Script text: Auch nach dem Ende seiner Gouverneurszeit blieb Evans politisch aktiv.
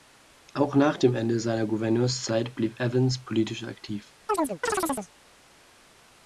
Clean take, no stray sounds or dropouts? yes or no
no